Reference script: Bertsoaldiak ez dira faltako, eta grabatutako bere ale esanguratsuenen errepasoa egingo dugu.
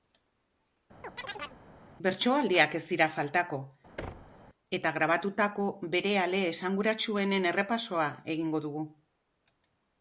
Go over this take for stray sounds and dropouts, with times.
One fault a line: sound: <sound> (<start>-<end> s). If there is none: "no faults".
sound: chirp (1.0-1.6 s)
sound: thud (4.0-4.4 s)